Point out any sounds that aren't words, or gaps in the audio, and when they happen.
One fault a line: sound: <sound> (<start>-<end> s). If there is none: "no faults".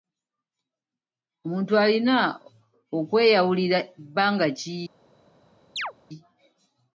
sound: chirp (5.8-5.9 s)